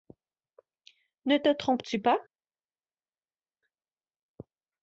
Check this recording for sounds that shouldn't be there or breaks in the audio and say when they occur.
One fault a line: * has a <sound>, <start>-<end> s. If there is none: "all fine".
all fine